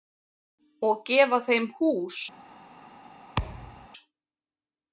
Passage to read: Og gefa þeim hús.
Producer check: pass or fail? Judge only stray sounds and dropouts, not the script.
fail